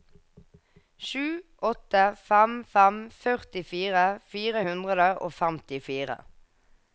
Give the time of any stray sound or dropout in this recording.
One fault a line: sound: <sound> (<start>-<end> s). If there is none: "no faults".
no faults